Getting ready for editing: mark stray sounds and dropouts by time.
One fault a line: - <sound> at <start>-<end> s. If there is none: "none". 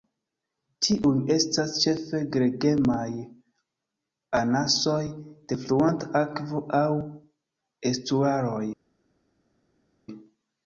none